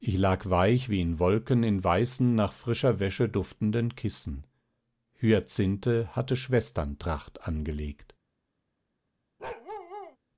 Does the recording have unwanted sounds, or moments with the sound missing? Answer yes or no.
yes